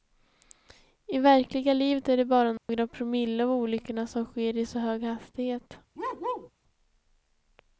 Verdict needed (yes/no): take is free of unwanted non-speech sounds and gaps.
no